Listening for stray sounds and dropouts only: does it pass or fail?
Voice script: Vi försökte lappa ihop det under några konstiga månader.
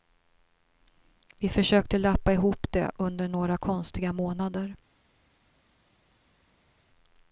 pass